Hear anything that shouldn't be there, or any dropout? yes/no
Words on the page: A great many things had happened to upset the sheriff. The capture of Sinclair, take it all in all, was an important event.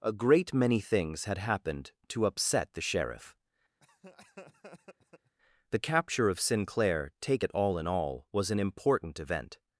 yes